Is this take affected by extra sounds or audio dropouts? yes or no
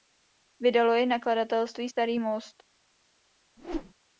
yes